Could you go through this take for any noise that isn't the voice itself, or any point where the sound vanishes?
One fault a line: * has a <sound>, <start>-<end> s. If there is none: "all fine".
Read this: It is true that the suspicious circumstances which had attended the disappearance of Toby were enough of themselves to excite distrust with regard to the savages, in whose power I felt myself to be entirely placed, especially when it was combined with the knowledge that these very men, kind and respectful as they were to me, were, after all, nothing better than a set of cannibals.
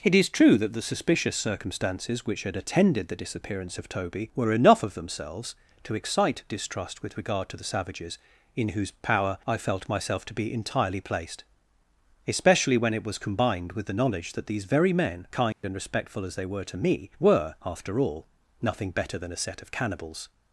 * has a dropout, 15.5-15.6 s